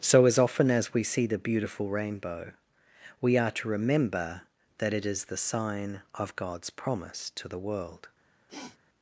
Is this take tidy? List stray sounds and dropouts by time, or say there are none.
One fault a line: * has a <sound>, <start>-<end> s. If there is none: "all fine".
* has a sniff, 8.5-8.8 s